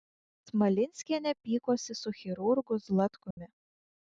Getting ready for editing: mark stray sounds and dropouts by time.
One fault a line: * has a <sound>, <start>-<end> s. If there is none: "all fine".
* has a dropout, 3.3-3.4 s